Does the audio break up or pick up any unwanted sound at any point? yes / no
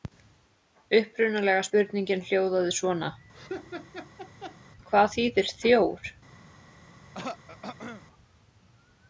yes